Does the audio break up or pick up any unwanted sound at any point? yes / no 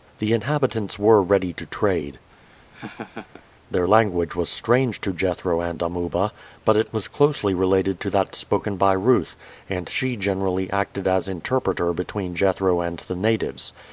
yes